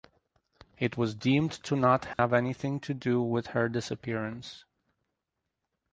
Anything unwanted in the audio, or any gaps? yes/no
yes